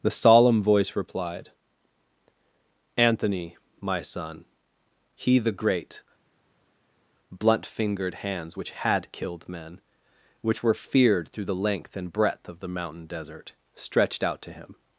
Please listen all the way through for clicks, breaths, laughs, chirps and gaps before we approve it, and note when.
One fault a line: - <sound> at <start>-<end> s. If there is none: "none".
none